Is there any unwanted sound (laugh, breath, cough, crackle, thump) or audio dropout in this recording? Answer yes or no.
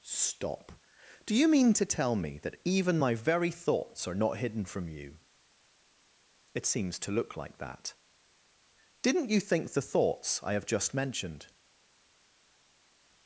no